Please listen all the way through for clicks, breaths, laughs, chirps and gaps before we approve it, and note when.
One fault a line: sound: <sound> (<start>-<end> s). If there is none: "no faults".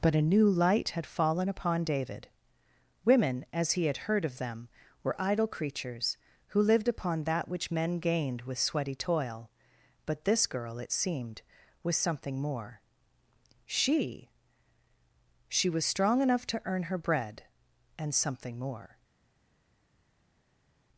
no faults